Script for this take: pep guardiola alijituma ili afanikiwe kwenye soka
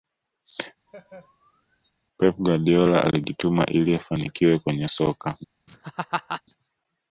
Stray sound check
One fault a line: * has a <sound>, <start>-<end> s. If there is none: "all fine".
* has a laugh, 0.9-1.9 s
* has a laugh, 5.7-6.4 s